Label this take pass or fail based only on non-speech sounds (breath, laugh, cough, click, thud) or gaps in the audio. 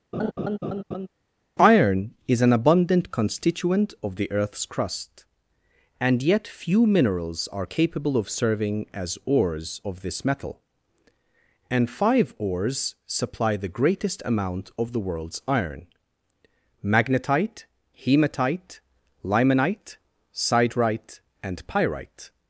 fail